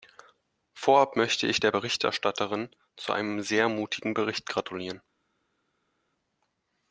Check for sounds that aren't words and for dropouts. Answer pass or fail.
pass